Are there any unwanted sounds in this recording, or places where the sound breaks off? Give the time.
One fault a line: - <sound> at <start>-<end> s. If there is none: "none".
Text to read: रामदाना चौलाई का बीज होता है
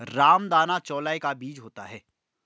none